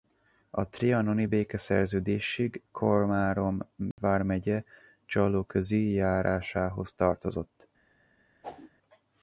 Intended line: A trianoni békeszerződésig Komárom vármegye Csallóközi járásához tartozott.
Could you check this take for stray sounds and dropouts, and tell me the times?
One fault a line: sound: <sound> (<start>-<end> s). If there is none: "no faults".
sound: dropout (3.9-4.0 s)
sound: whoosh (8.4-8.7 s)